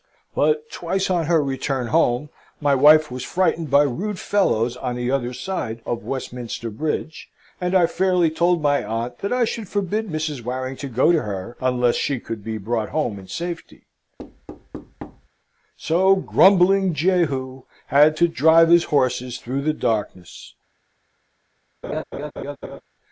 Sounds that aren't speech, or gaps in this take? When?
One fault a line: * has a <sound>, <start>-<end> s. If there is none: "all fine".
* has a thud, 14.2-15.3 s
* has a laugh, 21.8-22.8 s